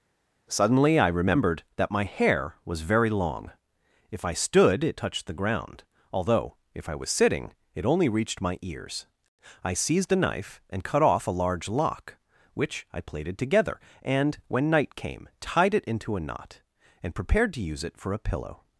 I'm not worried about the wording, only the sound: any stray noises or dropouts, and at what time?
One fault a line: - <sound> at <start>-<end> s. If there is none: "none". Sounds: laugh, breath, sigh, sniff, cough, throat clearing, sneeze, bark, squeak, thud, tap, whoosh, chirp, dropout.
none